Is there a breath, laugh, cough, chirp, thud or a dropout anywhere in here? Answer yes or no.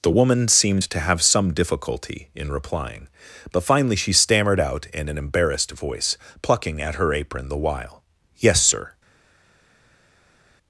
no